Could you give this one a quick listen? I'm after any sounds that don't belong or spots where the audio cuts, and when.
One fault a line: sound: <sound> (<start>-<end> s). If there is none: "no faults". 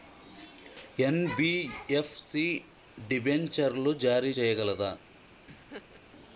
sound: laugh (5.5-6.0 s)